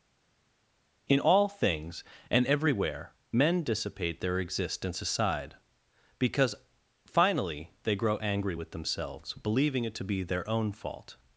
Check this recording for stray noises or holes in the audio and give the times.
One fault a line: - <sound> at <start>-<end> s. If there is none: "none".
none